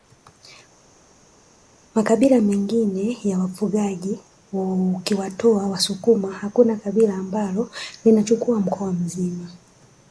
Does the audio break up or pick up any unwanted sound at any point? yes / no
no